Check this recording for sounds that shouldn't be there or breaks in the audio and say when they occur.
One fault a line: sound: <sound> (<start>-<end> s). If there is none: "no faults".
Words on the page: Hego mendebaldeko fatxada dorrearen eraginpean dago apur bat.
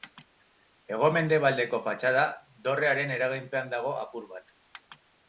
no faults